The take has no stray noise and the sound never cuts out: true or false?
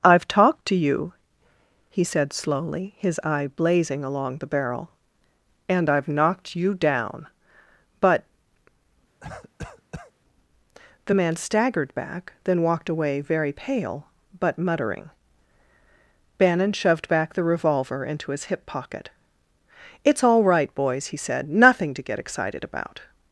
false